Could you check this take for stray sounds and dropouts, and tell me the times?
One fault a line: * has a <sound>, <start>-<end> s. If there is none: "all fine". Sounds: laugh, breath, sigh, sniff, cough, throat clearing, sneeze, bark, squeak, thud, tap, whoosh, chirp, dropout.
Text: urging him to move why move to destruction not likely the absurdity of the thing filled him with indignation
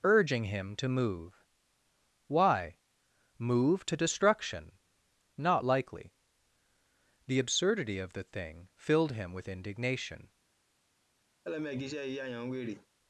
* has a laugh, 11.4-12.9 s